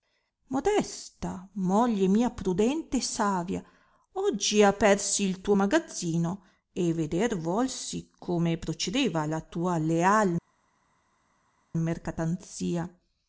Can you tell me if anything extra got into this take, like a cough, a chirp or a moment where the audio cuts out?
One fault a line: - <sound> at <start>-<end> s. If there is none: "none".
none